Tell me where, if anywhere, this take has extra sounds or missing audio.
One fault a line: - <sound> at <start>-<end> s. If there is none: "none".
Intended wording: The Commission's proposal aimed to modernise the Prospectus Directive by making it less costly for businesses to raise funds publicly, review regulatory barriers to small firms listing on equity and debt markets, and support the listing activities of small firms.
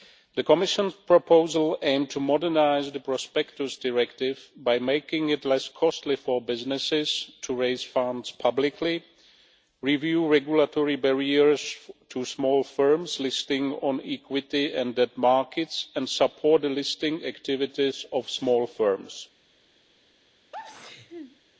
- sneeze at 20.5-21.4 s